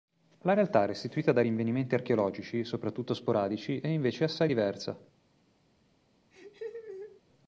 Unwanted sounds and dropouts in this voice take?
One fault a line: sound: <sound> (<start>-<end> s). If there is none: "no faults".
sound: laugh (6.3-7.2 s)